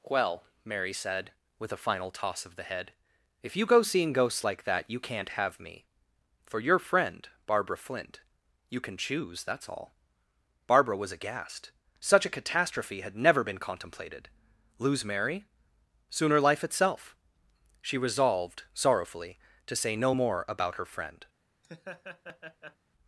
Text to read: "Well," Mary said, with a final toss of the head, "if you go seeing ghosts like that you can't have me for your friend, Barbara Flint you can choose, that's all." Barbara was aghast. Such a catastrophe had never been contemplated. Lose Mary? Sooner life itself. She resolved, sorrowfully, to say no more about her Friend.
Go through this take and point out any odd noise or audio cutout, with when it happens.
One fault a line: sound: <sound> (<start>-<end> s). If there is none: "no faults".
sound: laugh (21.6-22.8 s)